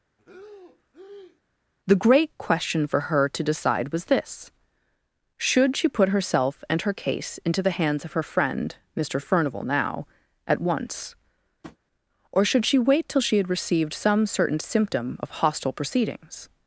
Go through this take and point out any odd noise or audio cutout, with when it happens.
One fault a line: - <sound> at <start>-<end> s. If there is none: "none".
- breath at 0.2-1.4 s
- tap at 11.6-11.8 s